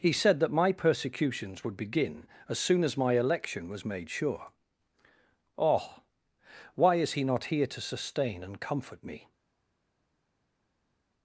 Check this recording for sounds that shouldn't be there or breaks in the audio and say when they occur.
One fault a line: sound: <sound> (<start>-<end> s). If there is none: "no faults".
no faults